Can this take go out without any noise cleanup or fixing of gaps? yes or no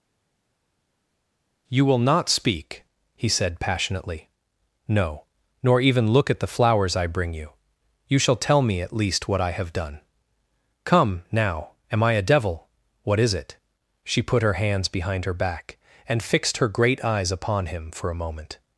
yes